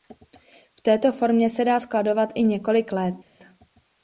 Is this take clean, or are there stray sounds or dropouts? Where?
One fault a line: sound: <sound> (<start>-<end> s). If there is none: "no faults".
no faults